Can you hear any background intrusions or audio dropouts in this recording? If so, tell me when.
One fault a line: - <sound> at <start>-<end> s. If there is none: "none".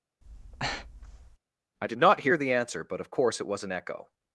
- breath at 0.2-1.4 s